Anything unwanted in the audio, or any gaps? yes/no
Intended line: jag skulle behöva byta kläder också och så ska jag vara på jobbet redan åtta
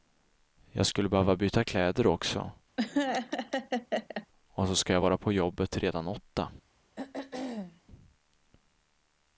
yes